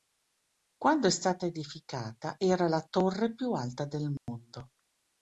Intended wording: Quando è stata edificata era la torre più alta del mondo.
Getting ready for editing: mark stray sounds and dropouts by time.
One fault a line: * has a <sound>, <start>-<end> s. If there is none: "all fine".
* has a dropout, 4.2-4.3 s